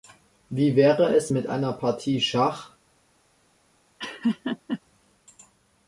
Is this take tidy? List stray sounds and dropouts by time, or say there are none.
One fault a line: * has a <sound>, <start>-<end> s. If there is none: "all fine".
* has a laugh, 4.0-4.8 s